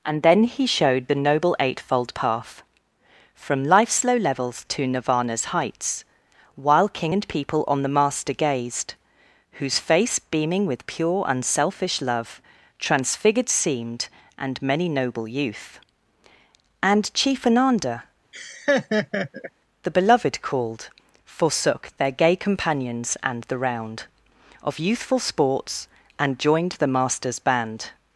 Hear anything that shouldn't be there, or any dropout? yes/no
yes